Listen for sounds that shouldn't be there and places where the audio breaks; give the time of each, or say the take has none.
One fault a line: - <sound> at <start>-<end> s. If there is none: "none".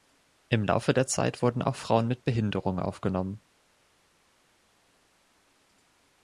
none